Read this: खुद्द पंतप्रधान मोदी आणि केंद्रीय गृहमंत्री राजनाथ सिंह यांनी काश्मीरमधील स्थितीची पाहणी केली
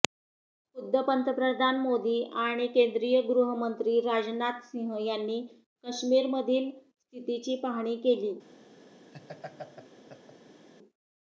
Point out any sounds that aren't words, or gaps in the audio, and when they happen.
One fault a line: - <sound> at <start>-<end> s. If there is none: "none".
- laugh at 9.1-10.7 s